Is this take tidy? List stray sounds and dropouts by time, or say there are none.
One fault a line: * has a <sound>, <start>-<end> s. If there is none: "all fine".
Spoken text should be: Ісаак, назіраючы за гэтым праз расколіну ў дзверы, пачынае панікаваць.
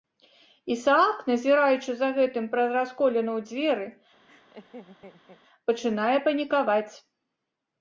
* has a laugh, 4.3-5.4 s